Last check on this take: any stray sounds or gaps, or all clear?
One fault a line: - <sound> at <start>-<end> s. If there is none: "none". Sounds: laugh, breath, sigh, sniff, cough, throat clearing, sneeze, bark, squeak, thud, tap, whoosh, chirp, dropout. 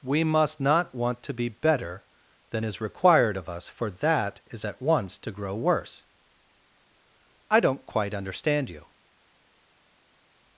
none